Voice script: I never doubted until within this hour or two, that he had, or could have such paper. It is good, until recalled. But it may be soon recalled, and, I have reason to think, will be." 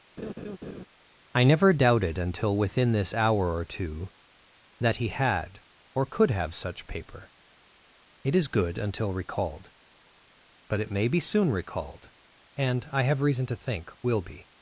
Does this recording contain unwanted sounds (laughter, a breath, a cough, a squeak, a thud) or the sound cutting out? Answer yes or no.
yes